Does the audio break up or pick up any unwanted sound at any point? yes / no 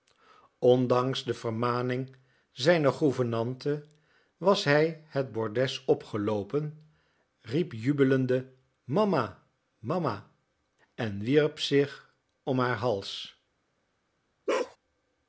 yes